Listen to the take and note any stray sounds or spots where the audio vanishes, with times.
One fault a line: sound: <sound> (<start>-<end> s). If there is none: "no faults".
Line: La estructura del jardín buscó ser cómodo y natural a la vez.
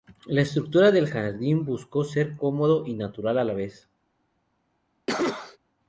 sound: cough (5.1-5.6 s)